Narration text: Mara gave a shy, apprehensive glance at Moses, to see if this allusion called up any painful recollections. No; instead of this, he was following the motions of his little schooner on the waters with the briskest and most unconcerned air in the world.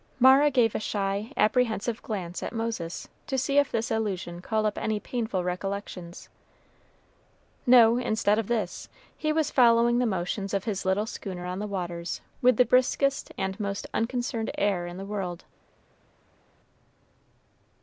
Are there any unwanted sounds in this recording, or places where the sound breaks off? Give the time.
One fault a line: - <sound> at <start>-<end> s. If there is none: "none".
none